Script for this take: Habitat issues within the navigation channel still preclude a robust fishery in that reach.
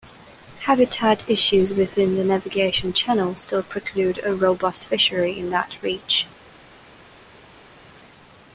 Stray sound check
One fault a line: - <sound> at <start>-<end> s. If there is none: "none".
none